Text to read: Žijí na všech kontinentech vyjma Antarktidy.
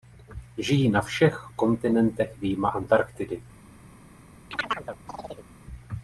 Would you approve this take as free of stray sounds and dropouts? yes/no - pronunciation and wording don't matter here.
no